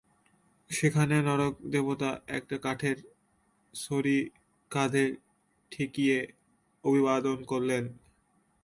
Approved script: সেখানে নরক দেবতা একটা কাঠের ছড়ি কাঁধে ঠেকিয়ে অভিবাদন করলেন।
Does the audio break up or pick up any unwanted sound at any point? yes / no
no